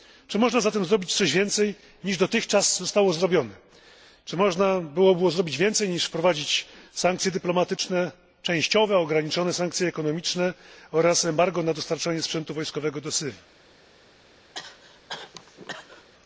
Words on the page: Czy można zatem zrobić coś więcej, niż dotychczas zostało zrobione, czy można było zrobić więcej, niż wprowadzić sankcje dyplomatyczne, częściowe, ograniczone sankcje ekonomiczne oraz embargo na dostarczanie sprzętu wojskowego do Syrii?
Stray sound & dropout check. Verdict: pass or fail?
fail